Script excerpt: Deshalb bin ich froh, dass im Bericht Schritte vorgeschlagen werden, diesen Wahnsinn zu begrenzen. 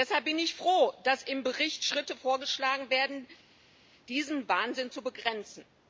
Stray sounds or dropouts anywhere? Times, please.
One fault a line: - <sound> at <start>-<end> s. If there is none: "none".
none